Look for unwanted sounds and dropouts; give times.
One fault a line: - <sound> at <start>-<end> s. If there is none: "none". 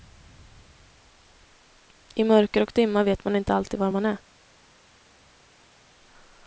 none